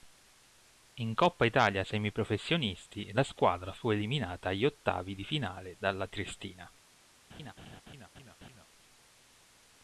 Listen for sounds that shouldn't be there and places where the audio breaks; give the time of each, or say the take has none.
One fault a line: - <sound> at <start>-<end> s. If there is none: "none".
- laugh at 7.3-8.7 s